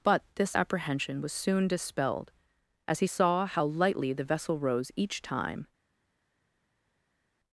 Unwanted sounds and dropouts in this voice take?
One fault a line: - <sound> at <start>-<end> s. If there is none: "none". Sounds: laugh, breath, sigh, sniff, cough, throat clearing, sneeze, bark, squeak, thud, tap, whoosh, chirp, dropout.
none